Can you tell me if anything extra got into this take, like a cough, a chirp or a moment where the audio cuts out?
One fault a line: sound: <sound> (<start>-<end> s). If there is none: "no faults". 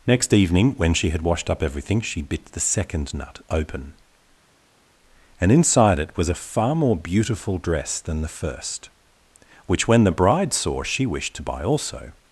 no faults